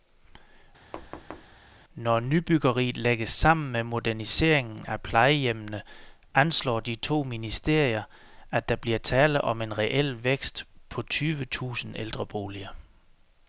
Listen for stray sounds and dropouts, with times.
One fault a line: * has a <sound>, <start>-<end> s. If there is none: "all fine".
* has a thud, 0.9-1.6 s